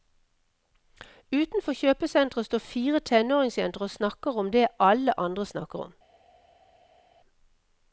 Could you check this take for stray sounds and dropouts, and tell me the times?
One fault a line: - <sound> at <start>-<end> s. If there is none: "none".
none